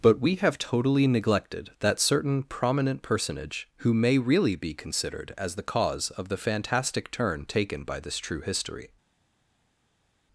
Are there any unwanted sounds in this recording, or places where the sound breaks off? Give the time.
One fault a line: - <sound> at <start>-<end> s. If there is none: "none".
none